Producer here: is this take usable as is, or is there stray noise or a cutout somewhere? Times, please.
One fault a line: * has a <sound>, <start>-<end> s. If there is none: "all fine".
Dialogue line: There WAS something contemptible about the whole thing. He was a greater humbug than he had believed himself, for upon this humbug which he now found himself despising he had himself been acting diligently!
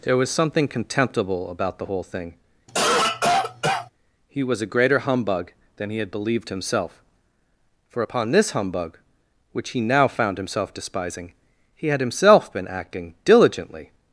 * has a cough, 2.7-3.9 s